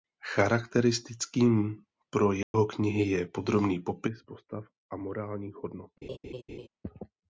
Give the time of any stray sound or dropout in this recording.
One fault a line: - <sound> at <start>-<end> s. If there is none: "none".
- dropout at 2.4-2.5 s
- laugh at 6.0-6.7 s